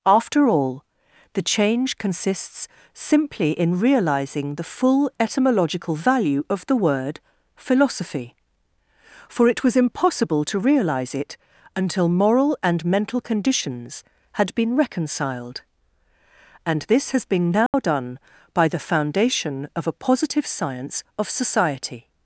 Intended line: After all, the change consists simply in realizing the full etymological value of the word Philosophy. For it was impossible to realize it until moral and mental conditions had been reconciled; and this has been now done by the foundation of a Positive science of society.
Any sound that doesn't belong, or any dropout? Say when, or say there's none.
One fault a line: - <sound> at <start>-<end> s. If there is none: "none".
- dropout at 17.7-17.7 s